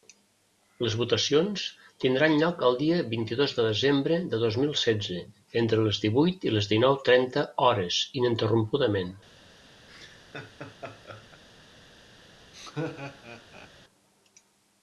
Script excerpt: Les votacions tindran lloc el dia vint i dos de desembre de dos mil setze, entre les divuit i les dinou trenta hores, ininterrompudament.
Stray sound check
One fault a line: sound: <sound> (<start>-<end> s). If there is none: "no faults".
sound: laugh (9.9-11.4 s)
sound: laugh (12.5-13.7 s)